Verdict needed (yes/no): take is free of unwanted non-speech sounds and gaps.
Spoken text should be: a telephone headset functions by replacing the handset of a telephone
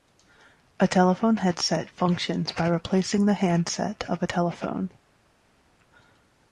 yes